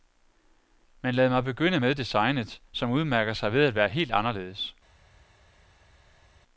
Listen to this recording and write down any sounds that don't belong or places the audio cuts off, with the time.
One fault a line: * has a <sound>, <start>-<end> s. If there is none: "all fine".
all fine